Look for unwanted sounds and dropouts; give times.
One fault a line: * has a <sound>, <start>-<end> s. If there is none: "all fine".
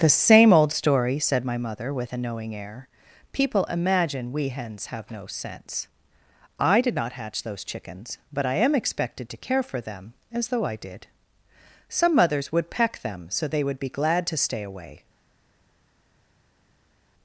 all fine